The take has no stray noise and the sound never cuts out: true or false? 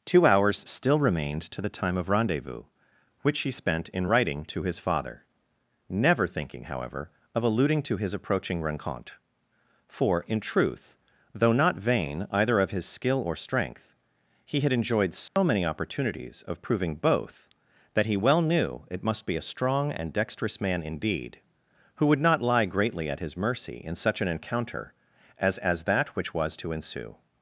false